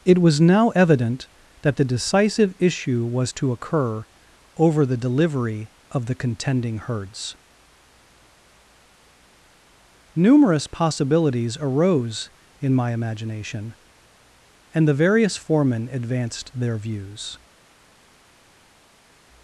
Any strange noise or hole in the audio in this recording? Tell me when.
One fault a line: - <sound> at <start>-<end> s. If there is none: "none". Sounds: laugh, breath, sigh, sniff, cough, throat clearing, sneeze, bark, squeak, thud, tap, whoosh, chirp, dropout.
none